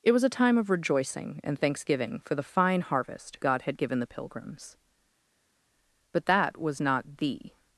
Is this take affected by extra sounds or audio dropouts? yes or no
no